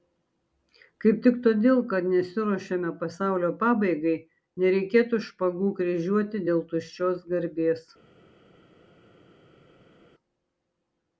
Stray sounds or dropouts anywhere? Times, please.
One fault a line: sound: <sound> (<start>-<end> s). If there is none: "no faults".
no faults